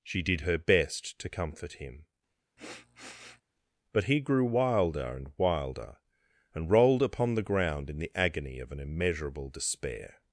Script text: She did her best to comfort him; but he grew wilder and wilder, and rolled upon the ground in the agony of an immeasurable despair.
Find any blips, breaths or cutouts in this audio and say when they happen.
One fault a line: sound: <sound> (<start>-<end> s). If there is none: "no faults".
sound: sniff (2.6-3.4 s)